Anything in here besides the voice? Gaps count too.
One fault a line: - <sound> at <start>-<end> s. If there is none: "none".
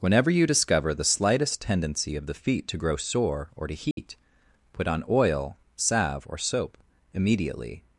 - dropout at 3.9-4.0 s